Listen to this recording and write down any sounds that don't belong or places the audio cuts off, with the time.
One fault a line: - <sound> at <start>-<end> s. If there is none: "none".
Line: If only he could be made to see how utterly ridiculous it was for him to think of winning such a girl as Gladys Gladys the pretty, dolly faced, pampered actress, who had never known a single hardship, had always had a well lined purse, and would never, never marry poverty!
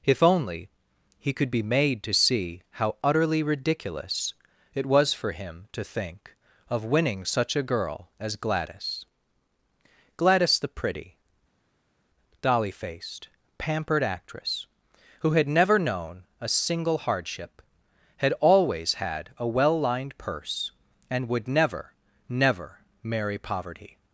none